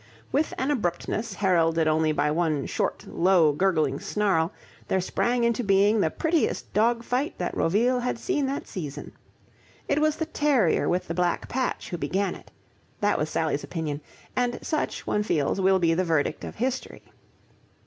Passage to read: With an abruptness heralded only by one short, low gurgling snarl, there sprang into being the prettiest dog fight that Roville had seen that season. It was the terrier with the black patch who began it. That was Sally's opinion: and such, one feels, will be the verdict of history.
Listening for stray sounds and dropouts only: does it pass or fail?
pass